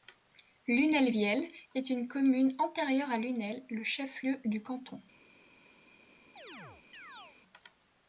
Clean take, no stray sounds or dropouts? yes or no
no